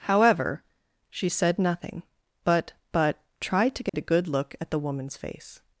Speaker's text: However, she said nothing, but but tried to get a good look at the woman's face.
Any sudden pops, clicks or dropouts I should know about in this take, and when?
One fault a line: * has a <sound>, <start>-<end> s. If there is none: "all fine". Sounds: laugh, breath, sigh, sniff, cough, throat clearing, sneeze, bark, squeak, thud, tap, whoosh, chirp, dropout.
* has a dropout, 3.9-3.9 s